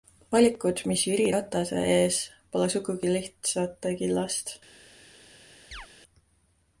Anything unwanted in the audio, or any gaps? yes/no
yes